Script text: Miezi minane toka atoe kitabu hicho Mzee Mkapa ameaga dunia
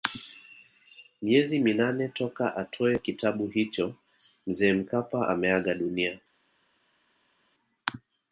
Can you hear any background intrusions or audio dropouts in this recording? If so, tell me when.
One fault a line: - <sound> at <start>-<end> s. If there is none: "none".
none